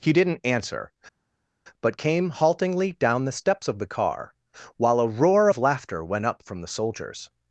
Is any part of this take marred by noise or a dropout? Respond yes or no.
no